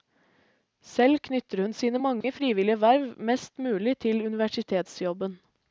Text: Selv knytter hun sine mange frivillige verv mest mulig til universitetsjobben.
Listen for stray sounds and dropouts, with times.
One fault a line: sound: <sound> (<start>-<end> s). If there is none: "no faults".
sound: dropout (2.2-2.2 s)